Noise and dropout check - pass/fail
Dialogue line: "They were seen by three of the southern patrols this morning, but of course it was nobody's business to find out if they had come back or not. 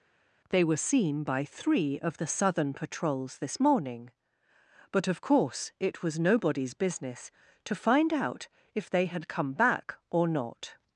pass